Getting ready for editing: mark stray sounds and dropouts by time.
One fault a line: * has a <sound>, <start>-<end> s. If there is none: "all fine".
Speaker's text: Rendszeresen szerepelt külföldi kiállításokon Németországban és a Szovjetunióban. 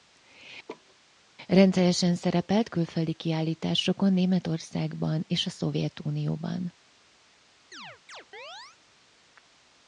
* has a laugh, 0.7-1.0 s
* has a chirp, 7.7-8.8 s